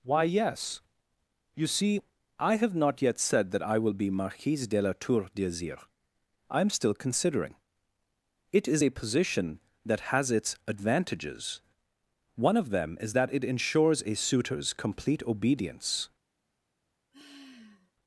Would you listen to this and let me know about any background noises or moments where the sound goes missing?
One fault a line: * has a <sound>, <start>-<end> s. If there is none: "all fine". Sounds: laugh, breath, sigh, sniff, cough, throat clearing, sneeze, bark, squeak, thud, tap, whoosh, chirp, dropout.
* has a sigh, 17.1-17.9 s